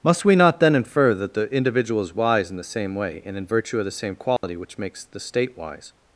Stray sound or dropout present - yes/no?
yes